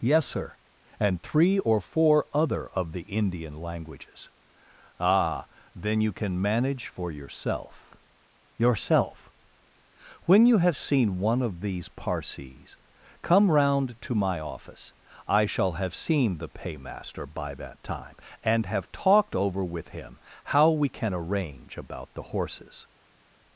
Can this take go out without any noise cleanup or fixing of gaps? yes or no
yes